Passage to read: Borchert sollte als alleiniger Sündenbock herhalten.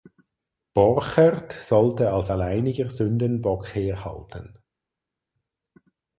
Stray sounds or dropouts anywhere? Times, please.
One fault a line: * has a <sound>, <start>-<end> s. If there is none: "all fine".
all fine